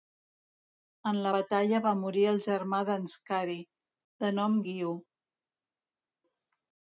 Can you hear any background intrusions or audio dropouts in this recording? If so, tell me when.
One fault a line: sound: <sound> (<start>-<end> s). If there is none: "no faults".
no faults